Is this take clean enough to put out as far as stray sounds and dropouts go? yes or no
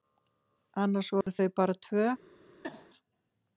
no